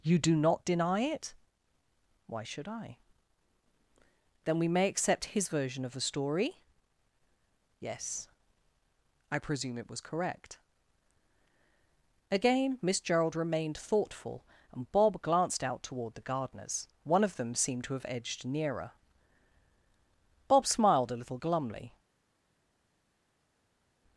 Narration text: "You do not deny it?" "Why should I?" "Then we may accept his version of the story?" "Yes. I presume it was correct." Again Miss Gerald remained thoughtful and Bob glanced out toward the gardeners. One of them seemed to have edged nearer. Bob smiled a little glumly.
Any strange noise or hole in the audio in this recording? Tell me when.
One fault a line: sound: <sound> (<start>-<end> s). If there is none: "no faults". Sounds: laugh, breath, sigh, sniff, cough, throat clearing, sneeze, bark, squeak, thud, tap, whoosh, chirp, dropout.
no faults